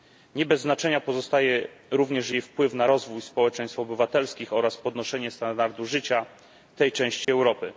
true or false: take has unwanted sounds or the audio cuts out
true